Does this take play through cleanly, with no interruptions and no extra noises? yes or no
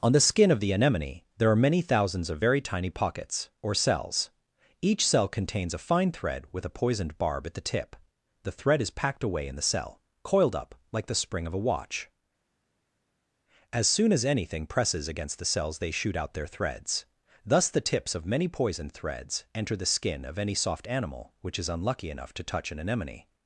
yes